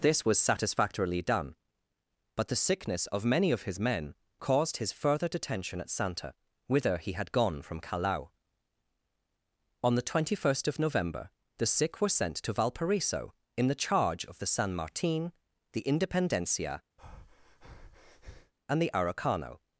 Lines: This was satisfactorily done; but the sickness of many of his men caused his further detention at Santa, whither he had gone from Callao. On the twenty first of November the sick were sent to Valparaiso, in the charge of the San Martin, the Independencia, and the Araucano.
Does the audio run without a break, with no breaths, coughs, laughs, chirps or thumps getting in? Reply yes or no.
no